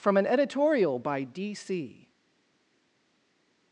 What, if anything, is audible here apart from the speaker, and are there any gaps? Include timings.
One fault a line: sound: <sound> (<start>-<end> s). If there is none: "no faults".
no faults